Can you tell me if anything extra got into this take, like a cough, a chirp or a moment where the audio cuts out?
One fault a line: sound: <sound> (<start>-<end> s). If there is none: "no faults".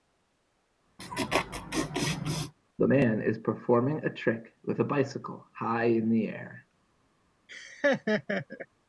sound: laugh (1.0-2.5 s)
sound: laugh (7.5-8.7 s)